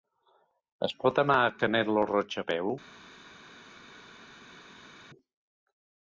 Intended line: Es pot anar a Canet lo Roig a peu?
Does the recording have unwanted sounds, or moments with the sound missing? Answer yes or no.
no